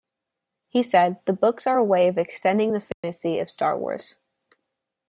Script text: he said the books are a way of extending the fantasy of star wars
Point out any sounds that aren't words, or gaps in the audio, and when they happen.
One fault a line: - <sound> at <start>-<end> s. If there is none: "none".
- dropout at 2.9-3.0 s